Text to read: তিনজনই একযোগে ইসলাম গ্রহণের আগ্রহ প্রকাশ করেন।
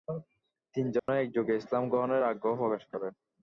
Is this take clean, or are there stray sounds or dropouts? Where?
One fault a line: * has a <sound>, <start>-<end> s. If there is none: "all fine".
* has a dropout, 1.0-1.1 s